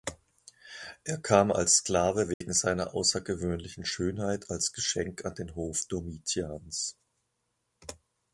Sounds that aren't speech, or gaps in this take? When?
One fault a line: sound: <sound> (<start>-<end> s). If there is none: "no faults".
sound: dropout (2.3-2.4 s)